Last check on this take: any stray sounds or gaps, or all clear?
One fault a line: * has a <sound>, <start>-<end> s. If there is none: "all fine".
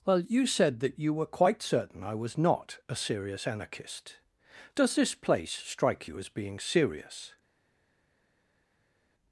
all fine